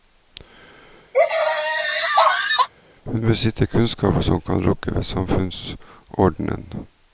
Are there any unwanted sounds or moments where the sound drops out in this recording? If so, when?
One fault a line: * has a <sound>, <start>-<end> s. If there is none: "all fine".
* has a laugh, 1.1-2.7 s